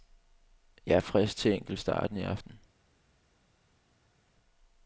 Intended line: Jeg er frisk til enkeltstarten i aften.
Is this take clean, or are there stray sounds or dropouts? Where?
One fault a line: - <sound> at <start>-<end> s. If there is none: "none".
none